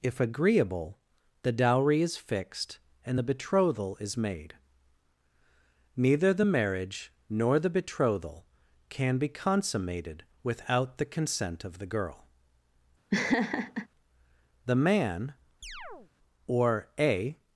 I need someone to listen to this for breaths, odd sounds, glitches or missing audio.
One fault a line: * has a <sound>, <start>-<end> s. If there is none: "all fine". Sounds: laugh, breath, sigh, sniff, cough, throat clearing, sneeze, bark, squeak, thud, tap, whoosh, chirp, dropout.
* has a laugh, 13.1-13.9 s
* has a chirp, 15.6-16.1 s